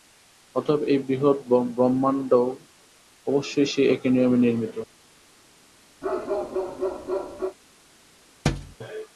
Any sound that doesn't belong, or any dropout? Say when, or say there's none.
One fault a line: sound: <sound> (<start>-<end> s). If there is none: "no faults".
sound: bark (6.0-7.6 s)
sound: thud (8.4-8.8 s)